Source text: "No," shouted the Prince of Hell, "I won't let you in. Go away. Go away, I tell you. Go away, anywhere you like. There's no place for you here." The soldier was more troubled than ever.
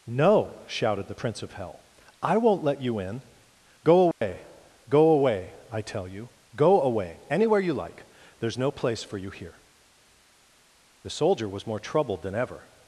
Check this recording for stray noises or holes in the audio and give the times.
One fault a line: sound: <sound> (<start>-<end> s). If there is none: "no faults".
sound: dropout (4.1-4.2 s)